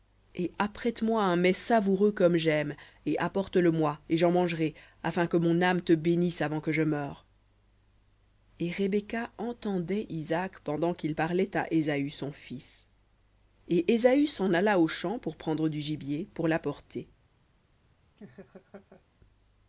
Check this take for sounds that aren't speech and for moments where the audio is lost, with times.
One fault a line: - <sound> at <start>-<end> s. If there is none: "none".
- laugh at 18.2-19.0 s